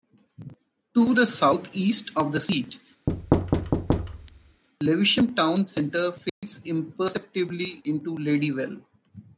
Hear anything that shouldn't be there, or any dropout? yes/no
yes